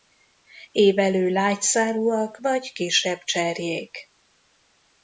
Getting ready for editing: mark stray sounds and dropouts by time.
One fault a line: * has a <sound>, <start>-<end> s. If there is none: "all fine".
all fine